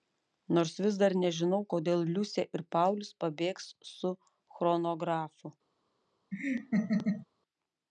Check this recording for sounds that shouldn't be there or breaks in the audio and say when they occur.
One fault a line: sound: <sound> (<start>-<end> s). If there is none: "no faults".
sound: laugh (6.3-7.3 s)